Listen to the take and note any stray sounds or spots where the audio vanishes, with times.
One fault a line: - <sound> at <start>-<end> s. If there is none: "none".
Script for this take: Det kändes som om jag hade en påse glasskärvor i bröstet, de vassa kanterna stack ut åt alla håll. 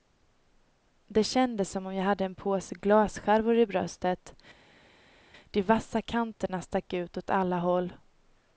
none